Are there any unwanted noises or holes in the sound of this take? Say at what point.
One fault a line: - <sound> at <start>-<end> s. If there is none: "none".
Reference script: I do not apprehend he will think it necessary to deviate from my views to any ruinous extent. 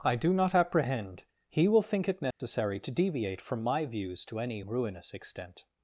- dropout at 2.3-2.4 s